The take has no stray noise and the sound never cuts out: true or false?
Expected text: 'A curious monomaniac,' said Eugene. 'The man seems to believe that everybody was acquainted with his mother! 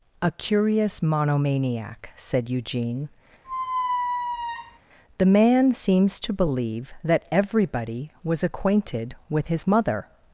false